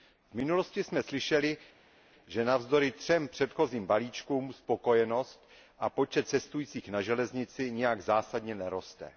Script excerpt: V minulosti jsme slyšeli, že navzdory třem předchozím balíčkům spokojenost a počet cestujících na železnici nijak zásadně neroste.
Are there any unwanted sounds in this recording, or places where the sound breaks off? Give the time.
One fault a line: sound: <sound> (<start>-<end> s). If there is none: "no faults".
no faults